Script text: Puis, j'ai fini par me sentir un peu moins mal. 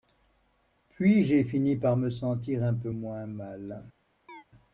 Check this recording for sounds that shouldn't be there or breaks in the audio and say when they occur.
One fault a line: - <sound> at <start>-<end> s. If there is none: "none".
- chirp at 4.3-4.4 s